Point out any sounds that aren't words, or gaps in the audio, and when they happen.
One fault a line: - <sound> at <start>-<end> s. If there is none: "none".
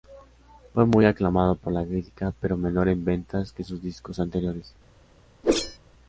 - whoosh at 5.4-5.8 s